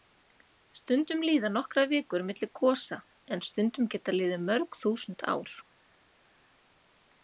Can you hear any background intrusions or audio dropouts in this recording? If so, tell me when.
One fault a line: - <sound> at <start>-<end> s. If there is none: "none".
none